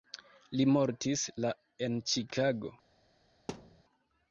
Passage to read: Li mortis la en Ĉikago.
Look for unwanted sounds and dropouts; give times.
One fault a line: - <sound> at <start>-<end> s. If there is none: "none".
- thud at 3.5-3.8 s